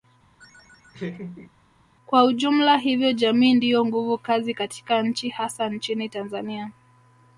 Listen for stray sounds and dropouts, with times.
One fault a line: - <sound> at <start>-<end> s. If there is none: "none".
- laugh at 0.4-1.5 s